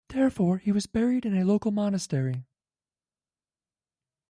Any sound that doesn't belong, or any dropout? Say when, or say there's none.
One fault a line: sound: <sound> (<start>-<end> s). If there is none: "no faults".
no faults